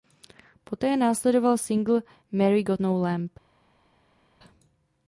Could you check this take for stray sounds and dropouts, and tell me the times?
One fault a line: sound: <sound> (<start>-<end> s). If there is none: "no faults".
no faults